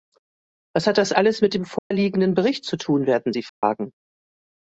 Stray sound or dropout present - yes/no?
yes